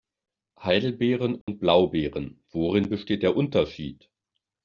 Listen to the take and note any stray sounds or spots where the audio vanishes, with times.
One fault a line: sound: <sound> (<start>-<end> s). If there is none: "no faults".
sound: dropout (1.4-1.5 s)